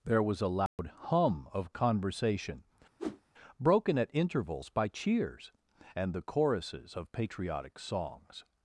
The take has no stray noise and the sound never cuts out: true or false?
false